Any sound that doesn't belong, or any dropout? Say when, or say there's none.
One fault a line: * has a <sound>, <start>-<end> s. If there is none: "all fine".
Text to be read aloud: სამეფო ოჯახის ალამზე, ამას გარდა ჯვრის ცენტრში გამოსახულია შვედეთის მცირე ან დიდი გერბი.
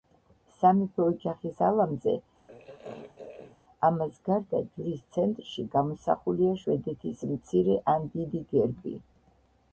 * has a throat clearing, 2.5-3.6 s